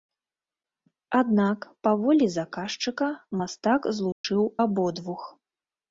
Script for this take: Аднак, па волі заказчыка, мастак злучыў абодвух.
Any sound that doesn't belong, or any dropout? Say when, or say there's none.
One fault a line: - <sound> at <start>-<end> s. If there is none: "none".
- dropout at 4.1-4.2 s